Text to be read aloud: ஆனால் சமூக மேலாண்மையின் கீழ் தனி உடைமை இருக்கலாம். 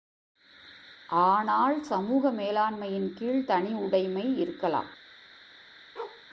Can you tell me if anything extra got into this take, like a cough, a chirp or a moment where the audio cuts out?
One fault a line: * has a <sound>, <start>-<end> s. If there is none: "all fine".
* has a bark, 6.0-6.3 s